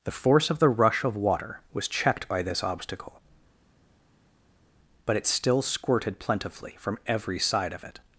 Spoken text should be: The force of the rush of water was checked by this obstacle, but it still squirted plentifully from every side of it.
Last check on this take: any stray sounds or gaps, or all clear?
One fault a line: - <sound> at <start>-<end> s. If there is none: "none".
none